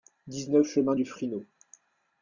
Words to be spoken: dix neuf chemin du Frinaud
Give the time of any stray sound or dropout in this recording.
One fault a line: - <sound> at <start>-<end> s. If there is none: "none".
none